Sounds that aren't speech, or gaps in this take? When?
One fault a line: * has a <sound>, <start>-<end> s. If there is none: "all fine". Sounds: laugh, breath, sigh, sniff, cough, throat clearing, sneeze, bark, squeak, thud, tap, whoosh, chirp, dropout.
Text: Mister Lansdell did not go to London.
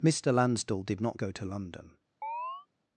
* has a chirp, 2.2-2.7 s